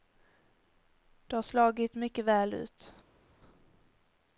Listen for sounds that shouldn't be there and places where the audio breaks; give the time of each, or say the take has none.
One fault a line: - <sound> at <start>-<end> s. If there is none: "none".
none